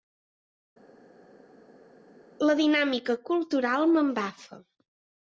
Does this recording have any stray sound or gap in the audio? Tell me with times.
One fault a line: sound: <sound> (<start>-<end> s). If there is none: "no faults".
no faults